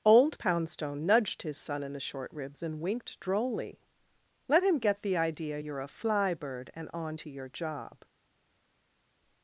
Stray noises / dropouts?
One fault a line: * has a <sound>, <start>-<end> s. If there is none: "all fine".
all fine